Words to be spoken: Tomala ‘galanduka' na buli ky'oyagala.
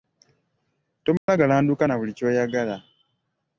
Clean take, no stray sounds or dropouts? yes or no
no